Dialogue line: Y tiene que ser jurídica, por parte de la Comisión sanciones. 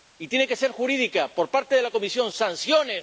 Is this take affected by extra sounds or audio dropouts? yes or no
no